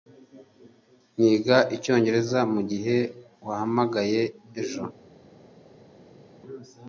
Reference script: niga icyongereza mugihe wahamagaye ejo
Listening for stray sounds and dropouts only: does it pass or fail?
pass